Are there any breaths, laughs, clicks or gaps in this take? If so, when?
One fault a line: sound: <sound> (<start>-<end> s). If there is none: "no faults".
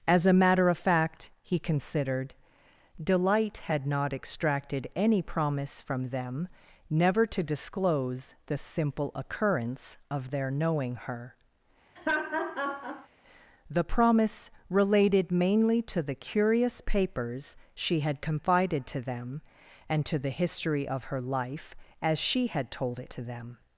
sound: laugh (12.0-13.1 s)